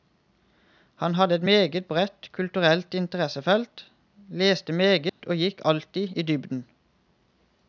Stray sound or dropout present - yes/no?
yes